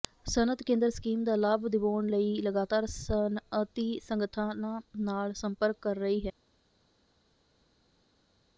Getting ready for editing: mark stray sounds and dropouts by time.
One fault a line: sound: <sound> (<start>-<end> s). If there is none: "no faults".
no faults